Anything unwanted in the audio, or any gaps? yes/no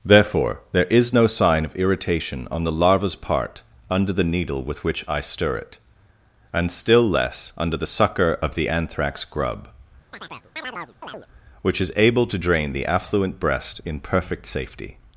yes